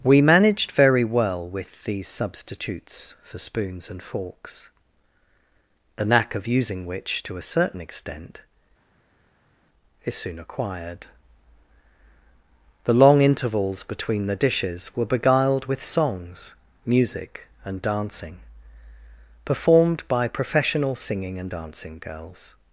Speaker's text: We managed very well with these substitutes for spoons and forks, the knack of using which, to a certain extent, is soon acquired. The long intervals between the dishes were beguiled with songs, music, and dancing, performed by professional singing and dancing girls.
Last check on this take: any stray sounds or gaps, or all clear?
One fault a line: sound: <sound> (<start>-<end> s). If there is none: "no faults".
no faults